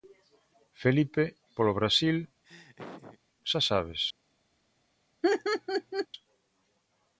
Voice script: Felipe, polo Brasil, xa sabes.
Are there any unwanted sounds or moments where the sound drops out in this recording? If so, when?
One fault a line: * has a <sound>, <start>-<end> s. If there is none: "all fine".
* has a laugh, 2.4-3.2 s
* has a laugh, 5.2-6.1 s